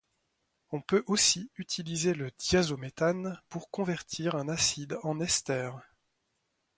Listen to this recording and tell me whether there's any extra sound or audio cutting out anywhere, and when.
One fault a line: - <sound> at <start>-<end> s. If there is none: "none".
none